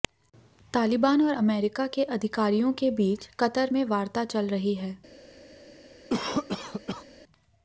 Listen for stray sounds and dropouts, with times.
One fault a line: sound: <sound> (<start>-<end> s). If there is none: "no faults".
sound: cough (6.1-7.1 s)